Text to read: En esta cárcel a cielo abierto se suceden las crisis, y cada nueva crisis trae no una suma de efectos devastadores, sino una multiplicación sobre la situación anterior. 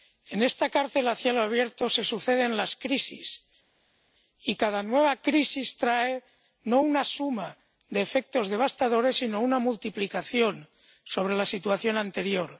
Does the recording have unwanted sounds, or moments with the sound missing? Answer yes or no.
no